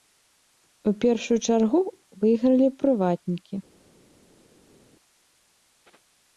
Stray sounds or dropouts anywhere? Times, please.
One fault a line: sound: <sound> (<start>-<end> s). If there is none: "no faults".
no faults